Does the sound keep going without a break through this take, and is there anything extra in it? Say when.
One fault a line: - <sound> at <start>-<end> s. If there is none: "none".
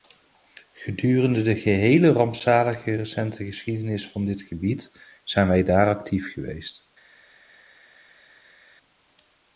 none